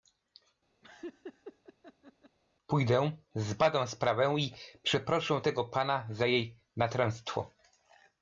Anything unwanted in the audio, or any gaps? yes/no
yes